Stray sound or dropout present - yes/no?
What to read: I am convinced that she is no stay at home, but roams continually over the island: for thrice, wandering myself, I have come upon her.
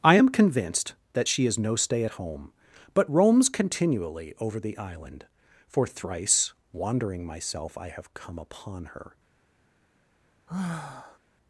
yes